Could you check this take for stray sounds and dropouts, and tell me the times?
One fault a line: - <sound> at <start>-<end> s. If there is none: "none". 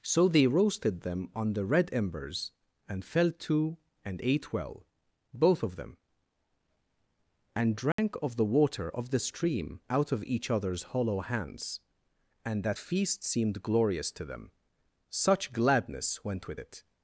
- dropout at 7.9-8.0 s